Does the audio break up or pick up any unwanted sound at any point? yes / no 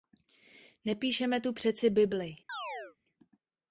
yes